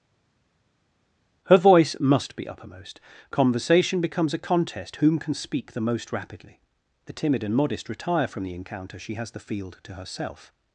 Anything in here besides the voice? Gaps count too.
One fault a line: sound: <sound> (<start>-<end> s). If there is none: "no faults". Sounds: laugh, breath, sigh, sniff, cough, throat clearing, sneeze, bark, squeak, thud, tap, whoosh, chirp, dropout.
no faults